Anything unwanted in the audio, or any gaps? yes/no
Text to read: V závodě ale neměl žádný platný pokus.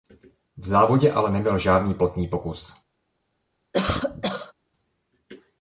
yes